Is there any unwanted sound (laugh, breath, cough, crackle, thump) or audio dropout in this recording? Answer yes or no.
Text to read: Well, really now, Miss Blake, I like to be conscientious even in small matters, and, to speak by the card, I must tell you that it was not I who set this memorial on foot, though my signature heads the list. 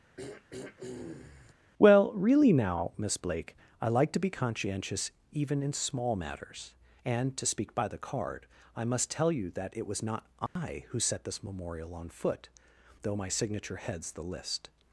yes